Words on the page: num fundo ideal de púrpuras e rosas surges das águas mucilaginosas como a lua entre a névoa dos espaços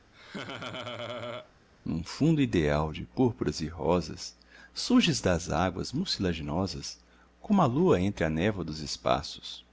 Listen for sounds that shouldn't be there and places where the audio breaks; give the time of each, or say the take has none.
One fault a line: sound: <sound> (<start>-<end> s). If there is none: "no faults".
sound: laugh (0.1-1.5 s)